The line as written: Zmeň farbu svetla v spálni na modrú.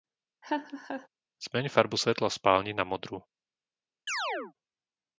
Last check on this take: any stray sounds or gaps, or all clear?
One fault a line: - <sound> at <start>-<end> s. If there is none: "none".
- laugh at 0.4-1.1 s
- chirp at 4.1-4.5 s